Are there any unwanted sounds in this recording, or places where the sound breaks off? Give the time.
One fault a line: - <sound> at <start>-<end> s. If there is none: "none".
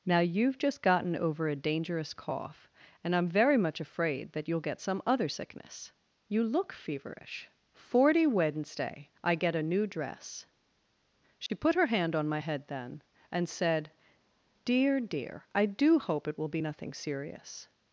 - dropout at 11.5-11.5 s